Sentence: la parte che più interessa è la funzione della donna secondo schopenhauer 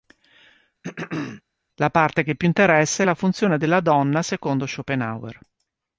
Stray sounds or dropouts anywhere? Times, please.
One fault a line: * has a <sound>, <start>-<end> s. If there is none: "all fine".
* has a throat clearing, 0.8-1.4 s